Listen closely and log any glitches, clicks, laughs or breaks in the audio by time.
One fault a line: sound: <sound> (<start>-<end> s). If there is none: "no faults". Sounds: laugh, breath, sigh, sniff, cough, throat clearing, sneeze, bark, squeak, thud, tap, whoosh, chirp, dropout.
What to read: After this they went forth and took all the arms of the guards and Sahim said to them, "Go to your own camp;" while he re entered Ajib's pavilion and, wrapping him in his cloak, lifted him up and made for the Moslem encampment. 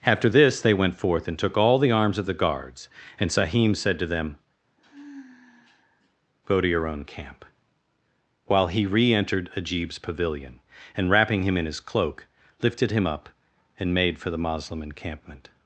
sound: sigh (4.8-6.1 s)